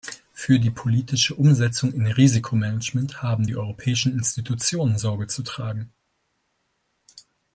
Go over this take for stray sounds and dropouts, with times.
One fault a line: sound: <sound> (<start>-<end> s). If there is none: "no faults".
no faults